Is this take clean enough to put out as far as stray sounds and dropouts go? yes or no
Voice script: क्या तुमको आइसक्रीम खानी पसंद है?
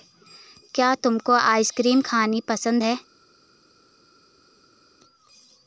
yes